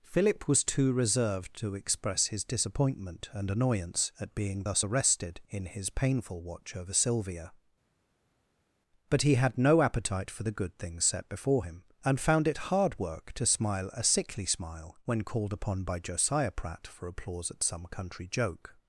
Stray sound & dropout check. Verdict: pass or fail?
pass